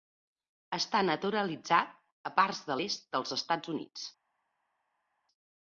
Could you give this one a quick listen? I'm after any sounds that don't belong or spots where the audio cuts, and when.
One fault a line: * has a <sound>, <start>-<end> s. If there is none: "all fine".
all fine